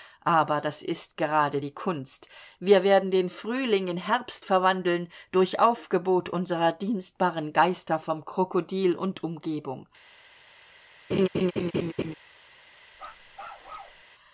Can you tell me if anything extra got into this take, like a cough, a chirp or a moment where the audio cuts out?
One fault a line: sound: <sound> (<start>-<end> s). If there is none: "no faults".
sound: laugh (11.1-12.1 s)
sound: bark (12.9-14.0 s)